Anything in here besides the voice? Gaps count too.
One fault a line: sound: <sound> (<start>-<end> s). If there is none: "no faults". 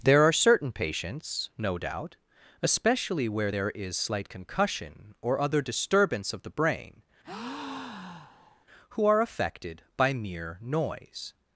sound: breath (7.2-8.6 s)